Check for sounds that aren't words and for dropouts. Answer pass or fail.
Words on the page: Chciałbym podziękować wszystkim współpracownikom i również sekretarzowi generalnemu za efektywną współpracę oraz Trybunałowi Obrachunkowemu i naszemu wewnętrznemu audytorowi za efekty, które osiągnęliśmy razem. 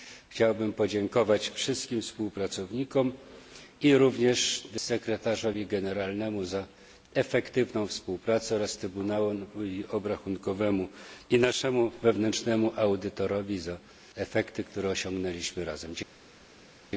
pass